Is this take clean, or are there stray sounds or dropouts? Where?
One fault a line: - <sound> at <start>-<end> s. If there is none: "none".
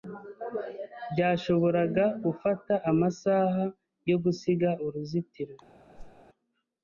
- whoosh at 5.9-6.2 s